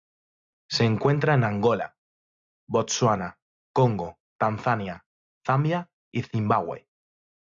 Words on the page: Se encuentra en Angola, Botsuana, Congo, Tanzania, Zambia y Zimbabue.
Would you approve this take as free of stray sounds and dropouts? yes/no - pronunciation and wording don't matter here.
yes